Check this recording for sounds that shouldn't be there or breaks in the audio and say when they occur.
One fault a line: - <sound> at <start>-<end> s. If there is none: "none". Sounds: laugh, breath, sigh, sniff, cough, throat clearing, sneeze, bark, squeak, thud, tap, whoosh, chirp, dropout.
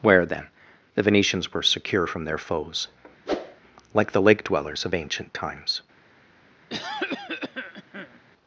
- whoosh at 3.3-3.6 s
- cough at 6.7-8.2 s